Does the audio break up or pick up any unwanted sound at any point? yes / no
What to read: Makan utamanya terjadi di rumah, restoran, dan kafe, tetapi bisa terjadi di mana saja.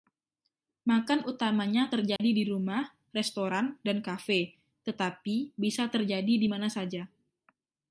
yes